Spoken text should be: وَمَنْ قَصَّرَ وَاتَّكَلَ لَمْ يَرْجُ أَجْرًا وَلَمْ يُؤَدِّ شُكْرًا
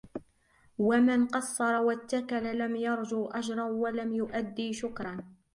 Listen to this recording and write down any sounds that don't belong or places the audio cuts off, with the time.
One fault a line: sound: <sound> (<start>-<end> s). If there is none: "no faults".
no faults